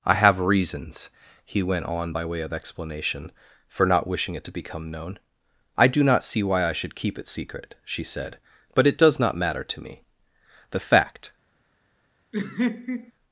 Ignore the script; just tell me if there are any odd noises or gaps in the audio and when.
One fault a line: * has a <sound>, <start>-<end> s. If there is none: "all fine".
* has a laugh, 12.3-13.1 s